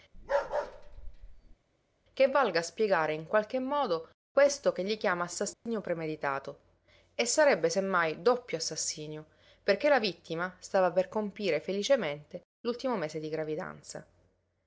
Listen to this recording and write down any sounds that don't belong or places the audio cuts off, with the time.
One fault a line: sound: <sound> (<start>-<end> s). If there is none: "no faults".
sound: bark (0.1-1.6 s)
sound: dropout (5.5-5.7 s)